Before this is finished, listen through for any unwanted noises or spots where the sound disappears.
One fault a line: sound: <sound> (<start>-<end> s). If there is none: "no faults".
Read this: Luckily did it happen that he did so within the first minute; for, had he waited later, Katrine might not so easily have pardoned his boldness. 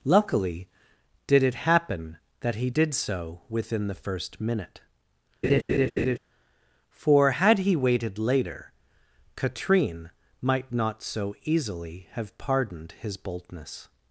sound: laugh (5.4-6.2 s)